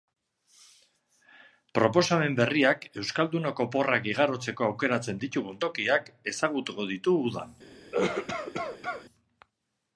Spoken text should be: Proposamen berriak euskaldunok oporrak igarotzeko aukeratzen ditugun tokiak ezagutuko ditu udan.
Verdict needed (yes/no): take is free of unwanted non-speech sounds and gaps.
no